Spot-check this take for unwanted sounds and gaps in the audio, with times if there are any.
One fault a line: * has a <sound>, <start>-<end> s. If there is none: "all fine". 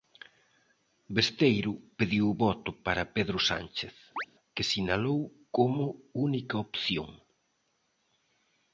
* has a chirp, 4.2-4.3 s